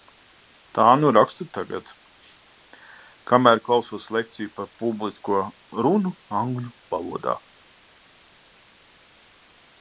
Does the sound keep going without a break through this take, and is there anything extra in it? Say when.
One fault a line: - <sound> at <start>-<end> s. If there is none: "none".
none